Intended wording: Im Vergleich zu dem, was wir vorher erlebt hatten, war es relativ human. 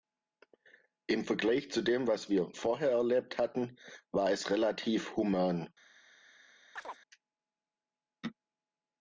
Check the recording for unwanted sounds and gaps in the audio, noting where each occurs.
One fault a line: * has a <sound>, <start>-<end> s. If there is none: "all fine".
* has a chirp, 6.8-7.0 s